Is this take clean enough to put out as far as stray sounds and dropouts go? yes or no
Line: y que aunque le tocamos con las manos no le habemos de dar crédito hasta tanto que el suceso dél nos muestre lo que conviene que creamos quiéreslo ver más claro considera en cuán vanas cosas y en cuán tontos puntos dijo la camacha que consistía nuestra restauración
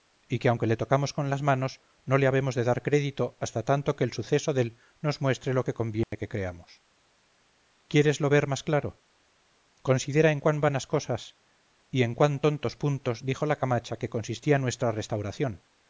no